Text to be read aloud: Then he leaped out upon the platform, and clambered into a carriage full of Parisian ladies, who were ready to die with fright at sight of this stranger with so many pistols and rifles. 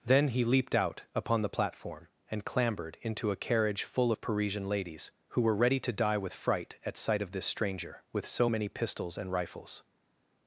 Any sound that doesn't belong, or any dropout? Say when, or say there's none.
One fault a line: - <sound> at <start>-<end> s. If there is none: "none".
none